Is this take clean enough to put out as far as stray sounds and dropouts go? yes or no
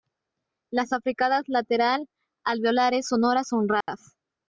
no